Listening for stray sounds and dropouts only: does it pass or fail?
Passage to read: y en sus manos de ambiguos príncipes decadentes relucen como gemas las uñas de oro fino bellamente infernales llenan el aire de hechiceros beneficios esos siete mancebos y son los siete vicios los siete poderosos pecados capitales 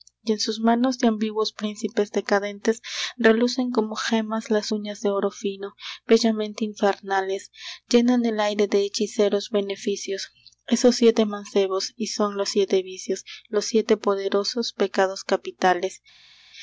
pass